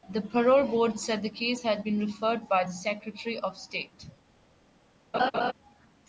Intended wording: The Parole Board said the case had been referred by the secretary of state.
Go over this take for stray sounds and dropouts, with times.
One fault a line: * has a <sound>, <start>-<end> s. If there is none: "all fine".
* has a laugh, 5.1-5.5 s